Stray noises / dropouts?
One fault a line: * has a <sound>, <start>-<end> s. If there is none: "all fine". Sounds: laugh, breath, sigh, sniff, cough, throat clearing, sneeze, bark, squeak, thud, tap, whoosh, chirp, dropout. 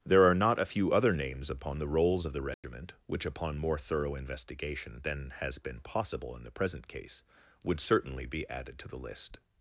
* has a dropout, 2.5-2.6 s